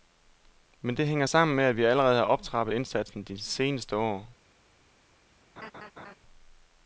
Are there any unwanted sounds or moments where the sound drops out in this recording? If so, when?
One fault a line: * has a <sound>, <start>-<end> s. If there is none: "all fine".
* has a laugh, 5.6-6.2 s